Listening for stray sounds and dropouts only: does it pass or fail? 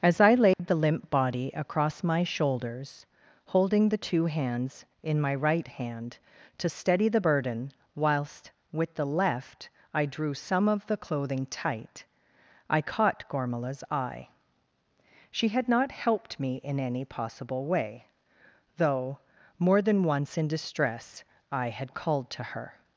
fail